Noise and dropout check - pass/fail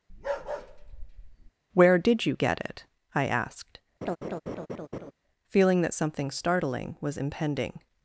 fail